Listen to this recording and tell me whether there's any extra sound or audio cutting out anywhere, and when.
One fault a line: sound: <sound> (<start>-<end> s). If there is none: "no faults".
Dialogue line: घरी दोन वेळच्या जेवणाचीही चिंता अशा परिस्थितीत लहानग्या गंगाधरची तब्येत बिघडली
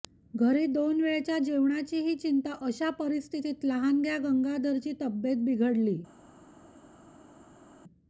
no faults